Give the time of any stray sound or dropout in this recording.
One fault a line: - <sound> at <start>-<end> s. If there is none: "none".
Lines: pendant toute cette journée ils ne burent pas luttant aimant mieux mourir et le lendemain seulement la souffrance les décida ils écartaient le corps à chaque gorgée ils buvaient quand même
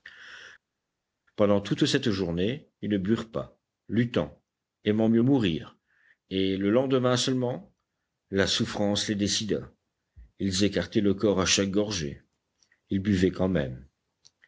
none